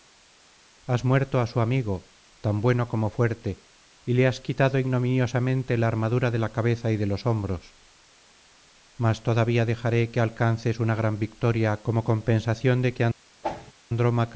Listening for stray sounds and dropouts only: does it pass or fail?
fail